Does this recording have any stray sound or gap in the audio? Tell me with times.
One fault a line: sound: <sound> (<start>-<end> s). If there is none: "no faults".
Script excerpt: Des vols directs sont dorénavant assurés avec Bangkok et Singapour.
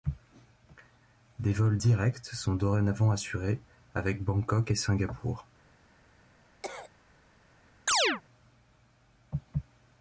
sound: cough (6.6-6.9 s)
sound: chirp (7.9-8.2 s)